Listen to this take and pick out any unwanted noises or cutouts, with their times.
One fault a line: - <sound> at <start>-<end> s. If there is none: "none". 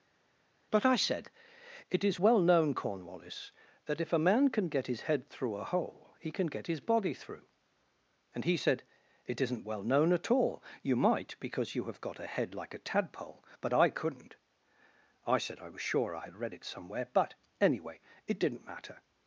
none